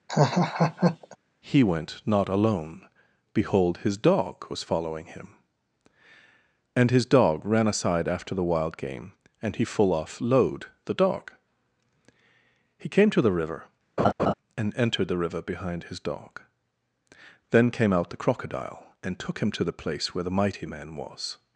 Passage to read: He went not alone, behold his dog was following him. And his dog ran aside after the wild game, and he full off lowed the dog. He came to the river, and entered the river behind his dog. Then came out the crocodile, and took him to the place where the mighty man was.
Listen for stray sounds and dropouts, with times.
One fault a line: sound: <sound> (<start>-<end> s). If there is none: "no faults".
sound: laugh (0.1-1.2 s)
sound: laugh (14.0-14.3 s)